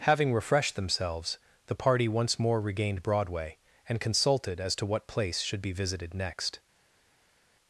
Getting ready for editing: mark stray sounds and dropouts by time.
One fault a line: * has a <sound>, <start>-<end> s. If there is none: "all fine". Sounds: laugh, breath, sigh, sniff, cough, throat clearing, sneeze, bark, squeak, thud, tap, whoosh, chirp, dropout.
all fine